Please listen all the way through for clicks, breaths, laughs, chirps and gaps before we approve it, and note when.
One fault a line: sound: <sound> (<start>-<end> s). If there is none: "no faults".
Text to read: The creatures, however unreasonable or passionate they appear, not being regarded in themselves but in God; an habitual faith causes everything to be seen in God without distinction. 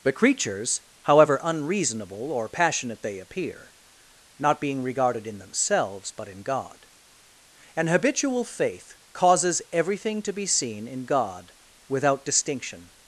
no faults